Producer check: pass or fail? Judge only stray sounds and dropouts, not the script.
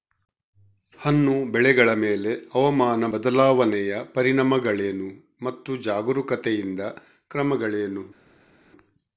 pass